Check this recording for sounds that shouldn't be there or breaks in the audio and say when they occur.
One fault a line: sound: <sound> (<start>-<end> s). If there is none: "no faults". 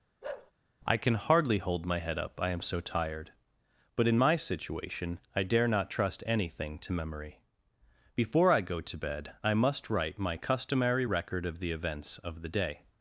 sound: bark (0.2-0.5 s)